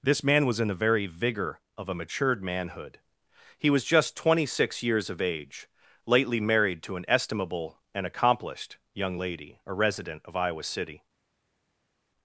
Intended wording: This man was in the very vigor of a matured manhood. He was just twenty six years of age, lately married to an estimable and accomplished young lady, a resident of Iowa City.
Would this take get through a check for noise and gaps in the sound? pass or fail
pass